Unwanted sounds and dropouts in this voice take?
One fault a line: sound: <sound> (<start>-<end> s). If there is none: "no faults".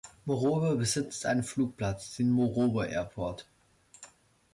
no faults